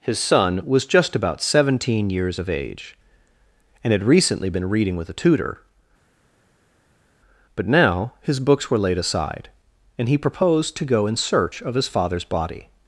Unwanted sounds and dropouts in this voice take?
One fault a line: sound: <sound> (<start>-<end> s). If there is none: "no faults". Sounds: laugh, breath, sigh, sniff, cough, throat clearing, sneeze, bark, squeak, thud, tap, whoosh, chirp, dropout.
no faults